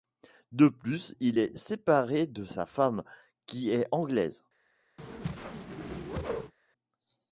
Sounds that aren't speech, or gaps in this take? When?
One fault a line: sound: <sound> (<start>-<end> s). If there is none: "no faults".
sound: whoosh (5.0-6.5 s)